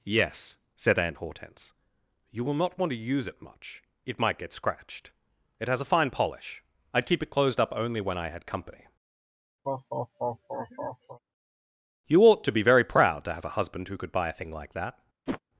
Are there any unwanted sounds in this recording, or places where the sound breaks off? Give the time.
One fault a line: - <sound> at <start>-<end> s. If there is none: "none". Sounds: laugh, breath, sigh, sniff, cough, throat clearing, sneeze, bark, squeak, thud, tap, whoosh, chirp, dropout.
- laugh at 9.6-11.2 s
- whoosh at 15.3-15.4 s